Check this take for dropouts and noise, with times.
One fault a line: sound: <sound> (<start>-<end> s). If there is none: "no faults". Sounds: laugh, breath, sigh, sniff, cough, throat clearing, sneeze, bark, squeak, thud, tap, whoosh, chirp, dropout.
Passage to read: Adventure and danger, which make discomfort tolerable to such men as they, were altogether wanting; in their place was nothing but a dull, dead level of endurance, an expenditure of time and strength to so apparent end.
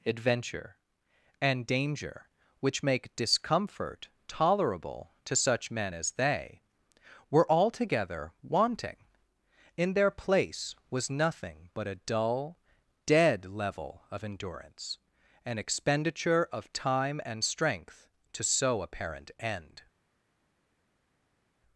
no faults